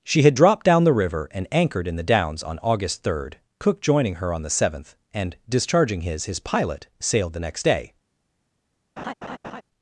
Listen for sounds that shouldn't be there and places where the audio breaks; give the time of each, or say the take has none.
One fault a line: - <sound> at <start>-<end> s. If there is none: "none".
- laugh at 9.0-9.6 s